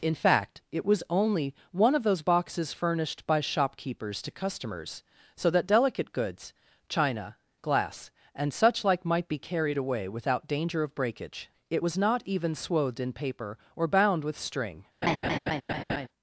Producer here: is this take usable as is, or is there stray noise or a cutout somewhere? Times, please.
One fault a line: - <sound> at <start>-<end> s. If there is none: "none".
- laugh at 15.0-16.1 s